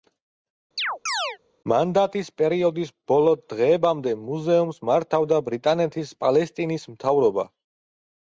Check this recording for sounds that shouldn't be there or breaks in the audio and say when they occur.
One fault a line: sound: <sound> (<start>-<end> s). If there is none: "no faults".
sound: chirp (0.8-1.4 s)